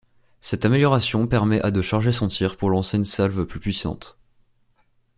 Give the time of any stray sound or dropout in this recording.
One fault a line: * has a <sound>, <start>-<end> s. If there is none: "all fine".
all fine